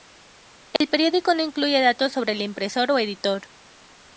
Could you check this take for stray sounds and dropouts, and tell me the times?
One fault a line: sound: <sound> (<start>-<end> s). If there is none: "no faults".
sound: dropout (0.8-0.8 s)